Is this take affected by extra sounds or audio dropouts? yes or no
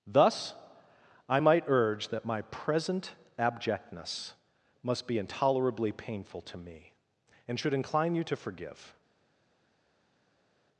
no